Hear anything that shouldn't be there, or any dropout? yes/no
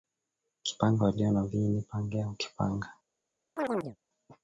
yes